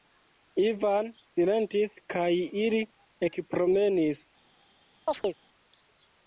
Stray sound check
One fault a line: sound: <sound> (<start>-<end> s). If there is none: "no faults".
sound: chirp (5.1-5.4 s)